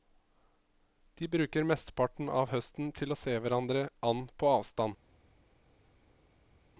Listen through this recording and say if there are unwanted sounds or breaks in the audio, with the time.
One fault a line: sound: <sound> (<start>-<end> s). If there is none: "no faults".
no faults